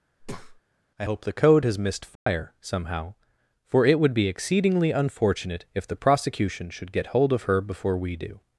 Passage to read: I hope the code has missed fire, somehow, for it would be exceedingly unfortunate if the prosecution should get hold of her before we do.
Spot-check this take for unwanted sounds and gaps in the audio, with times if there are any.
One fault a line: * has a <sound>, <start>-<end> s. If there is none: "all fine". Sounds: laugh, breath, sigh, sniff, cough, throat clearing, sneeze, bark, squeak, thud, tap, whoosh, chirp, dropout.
* has a breath, 0.2-0.6 s
* has a dropout, 2.2-2.3 s